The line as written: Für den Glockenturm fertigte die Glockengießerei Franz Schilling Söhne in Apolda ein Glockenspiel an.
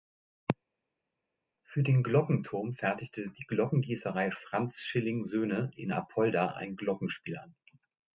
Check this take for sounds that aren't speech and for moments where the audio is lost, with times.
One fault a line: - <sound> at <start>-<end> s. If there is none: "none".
none